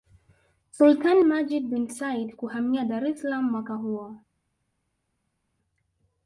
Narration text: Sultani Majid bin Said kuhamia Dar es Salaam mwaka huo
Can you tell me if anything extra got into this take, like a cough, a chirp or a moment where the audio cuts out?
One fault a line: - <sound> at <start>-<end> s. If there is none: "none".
none